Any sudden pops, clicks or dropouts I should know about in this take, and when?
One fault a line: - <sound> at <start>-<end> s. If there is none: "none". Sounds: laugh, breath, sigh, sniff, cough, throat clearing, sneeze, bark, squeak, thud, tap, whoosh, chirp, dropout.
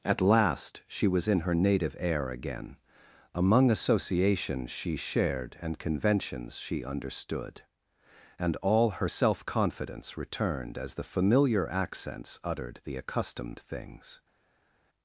none